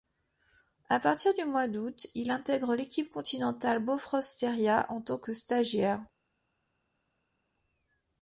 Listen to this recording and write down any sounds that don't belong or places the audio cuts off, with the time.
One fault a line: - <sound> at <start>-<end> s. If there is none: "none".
none